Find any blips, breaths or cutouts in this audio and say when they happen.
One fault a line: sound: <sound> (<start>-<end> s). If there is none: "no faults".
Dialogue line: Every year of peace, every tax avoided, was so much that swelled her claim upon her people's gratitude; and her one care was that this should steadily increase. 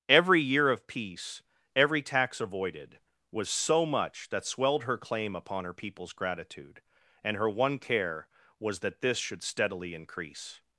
no faults